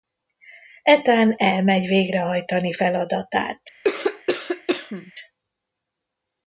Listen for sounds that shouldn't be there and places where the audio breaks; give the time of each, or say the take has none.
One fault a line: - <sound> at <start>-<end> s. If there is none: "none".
- cough at 3.8-5.1 s